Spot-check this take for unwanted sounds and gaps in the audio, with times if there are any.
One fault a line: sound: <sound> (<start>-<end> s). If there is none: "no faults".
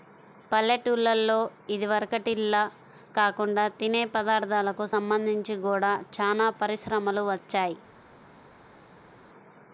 no faults